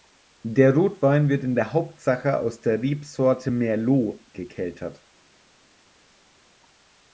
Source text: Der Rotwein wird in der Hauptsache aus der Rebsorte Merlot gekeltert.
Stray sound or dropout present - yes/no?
no